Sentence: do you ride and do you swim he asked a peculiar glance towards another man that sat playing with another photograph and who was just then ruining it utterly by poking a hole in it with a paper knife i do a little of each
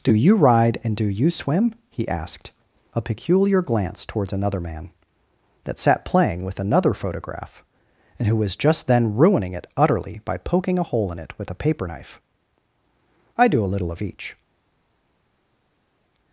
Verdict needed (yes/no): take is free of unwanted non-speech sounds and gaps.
yes